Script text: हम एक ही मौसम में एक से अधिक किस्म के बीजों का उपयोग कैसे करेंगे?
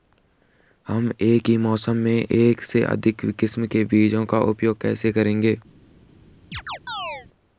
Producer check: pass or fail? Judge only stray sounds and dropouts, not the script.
fail